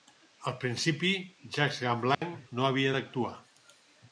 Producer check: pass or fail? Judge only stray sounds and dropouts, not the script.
fail